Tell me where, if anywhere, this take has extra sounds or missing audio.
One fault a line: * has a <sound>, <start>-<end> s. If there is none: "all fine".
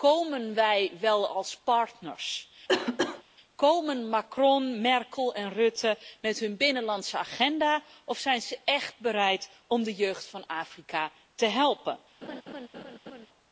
* has a cough, 2.7-3.2 s
* has a laugh, 12.2-13.3 s